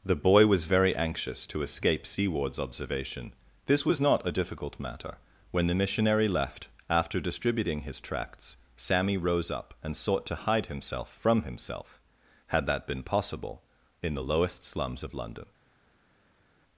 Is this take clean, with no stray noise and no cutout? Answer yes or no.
yes